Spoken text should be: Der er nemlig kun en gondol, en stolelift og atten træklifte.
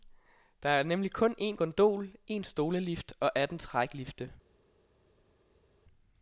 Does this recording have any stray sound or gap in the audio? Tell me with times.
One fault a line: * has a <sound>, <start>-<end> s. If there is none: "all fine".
all fine